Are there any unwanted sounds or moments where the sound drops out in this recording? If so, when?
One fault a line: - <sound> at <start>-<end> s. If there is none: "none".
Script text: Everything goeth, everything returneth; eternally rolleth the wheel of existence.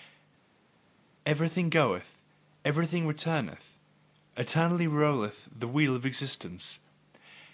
none